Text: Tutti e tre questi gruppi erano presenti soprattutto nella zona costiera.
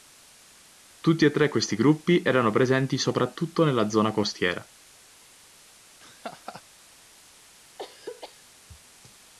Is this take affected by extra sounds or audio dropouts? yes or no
yes